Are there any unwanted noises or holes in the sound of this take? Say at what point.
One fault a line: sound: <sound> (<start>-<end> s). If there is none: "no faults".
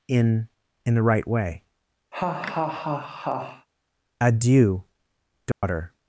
sound: laugh (2.1-3.7 s)
sound: dropout (5.5-5.6 s)